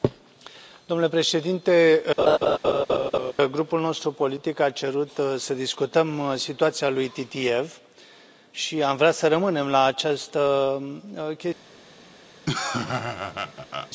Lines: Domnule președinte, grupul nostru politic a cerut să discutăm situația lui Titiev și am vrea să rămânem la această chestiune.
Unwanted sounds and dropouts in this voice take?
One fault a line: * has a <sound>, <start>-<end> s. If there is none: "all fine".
* has a laugh, 2.2-3.3 s
* has a laugh, 12.5-13.9 s